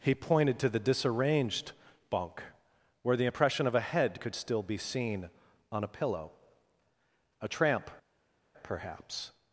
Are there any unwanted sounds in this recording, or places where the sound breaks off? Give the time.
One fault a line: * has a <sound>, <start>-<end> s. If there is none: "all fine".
all fine